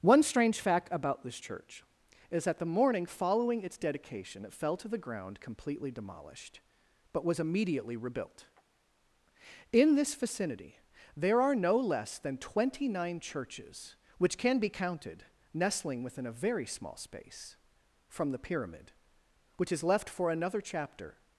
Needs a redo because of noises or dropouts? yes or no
no